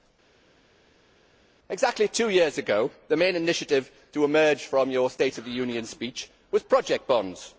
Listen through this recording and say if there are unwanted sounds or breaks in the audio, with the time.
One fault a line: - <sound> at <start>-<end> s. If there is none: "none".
none